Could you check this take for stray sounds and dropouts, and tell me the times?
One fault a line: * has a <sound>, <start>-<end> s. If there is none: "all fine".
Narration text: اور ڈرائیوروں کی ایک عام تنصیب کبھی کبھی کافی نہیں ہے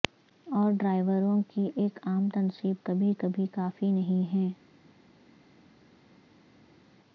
all fine